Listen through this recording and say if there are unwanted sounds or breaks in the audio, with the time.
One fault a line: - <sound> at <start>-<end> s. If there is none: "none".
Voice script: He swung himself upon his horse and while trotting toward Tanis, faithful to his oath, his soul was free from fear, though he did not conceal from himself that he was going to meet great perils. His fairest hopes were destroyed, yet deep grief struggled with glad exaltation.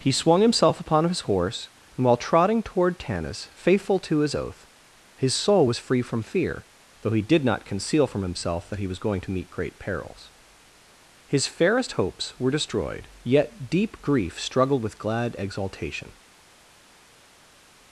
none